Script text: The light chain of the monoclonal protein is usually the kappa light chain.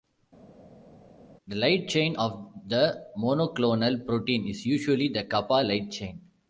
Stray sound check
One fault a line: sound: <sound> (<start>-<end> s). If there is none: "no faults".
no faults